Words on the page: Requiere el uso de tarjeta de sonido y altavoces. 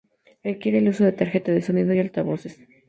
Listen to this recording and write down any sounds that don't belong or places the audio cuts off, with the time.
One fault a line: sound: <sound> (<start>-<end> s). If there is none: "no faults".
no faults